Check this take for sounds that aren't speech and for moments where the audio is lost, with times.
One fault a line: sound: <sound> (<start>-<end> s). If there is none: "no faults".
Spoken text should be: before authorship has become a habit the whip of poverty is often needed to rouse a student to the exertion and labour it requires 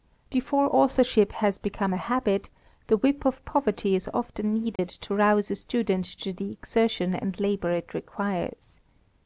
sound: dropout (4.8-4.8 s)